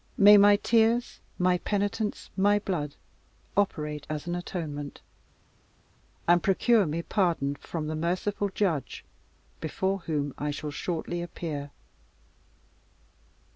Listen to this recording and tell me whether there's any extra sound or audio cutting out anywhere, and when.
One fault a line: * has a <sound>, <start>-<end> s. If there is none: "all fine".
all fine